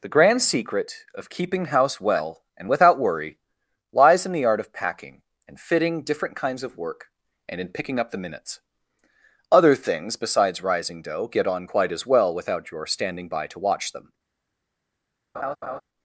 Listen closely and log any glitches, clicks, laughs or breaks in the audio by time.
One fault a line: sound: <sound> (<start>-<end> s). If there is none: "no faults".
sound: laugh (15.3-15.8 s)